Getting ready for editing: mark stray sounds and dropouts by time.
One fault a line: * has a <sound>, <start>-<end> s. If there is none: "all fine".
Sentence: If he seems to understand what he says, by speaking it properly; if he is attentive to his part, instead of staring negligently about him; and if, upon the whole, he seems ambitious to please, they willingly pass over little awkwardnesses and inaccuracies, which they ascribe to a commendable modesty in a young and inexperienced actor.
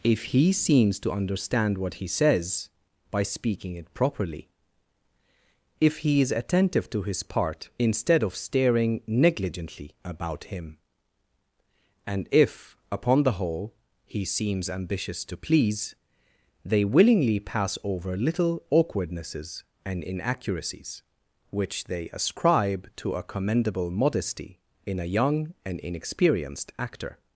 all fine